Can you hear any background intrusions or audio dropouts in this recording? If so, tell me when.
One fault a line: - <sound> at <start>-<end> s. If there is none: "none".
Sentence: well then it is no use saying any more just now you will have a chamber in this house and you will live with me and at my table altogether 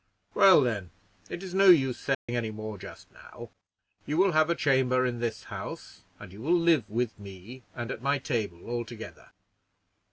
- dropout at 2.1-2.3 s